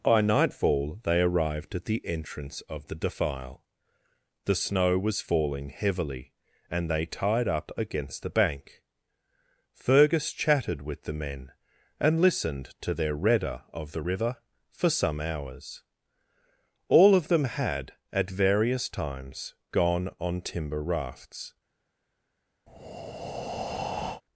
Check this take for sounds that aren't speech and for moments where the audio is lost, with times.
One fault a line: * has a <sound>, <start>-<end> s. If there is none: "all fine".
* has a breath, 22.7-24.2 s